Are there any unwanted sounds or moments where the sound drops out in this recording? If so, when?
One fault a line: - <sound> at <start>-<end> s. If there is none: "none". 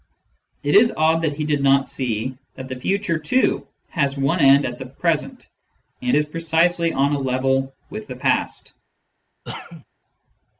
- cough at 9.4-9.8 s